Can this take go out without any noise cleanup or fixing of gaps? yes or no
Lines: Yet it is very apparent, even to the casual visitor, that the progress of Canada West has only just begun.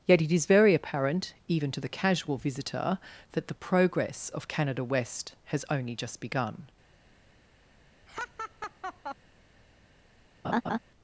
no